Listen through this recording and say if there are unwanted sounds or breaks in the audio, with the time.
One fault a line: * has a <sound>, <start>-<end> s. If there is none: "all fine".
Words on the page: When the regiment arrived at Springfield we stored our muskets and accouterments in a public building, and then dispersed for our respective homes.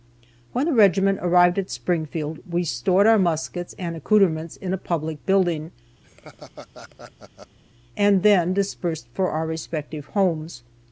* has a laugh, 6.0-7.6 s